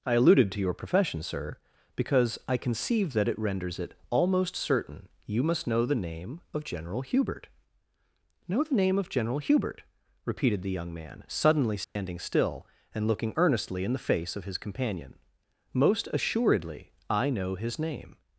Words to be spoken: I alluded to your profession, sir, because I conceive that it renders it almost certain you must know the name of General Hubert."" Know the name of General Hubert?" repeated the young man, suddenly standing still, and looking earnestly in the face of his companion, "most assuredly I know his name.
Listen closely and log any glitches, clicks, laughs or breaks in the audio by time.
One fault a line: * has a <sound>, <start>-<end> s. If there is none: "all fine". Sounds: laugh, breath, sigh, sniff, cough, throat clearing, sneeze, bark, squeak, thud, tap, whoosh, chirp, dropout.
* has a dropout, 11.8-12.0 s